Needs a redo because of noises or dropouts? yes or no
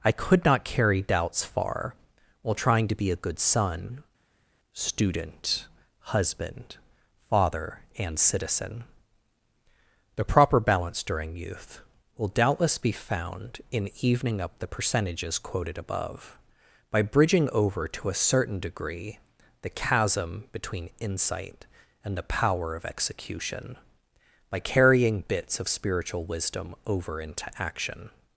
no